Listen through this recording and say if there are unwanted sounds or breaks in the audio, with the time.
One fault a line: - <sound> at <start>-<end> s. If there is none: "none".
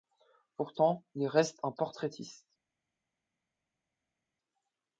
none